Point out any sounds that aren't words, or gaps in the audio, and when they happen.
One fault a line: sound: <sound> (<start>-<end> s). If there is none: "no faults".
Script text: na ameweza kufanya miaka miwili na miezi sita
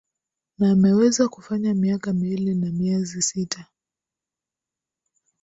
no faults